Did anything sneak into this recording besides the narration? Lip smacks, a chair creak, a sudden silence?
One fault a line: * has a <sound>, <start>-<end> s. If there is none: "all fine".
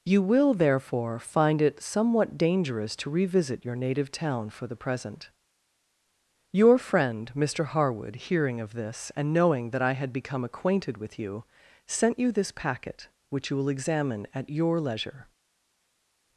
all fine